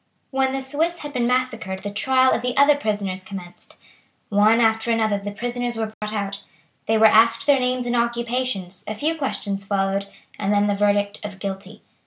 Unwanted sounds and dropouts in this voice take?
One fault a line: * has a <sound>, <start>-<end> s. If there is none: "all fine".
* has a dropout, 5.9-6.0 s